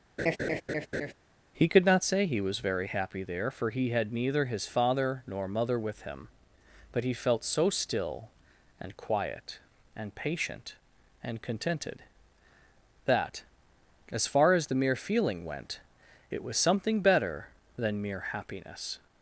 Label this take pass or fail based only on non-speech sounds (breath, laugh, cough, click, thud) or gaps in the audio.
fail